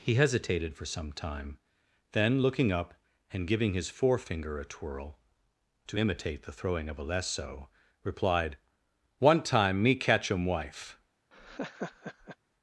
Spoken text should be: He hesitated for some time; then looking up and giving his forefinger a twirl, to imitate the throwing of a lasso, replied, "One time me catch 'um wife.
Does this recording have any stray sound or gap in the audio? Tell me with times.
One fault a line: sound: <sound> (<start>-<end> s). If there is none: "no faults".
sound: laugh (11.3-12.4 s)